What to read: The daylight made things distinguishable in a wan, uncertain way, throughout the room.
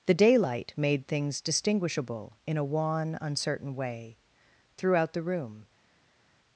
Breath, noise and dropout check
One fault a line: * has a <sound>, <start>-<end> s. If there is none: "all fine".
all fine